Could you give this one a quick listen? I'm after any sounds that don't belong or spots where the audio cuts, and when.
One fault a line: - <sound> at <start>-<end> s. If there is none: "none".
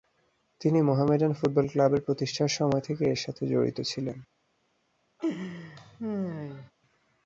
- laugh at 5.2-6.7 s